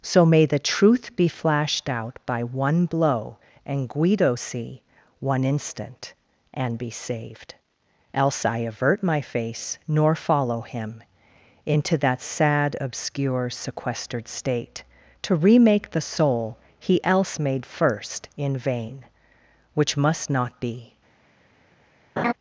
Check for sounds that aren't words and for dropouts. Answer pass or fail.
fail